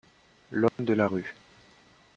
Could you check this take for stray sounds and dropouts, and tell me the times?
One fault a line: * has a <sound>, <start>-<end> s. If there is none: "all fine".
* has a dropout, 0.7-0.8 s